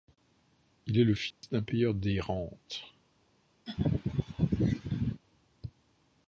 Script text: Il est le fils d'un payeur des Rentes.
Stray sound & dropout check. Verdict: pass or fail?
fail